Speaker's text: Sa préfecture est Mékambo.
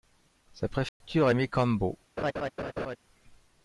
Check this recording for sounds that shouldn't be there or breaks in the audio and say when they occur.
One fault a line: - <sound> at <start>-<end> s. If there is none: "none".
- dropout at 0.9-1.0 s
- laugh at 2.2-3.0 s